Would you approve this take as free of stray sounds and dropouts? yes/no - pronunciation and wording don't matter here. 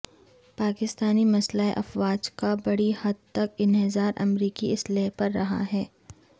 yes